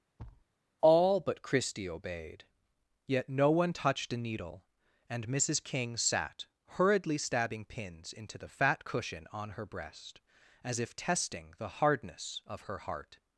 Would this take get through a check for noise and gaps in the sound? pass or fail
fail